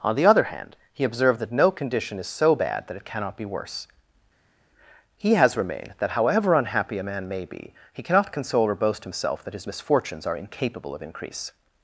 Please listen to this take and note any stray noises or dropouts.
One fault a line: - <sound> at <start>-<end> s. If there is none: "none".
none